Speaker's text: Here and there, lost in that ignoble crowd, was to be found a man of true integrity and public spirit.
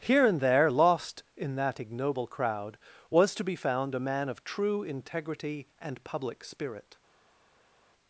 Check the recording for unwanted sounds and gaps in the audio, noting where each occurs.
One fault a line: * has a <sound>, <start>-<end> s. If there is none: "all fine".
all fine